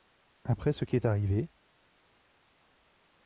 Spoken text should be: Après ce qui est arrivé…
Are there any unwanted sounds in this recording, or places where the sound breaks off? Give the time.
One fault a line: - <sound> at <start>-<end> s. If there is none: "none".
none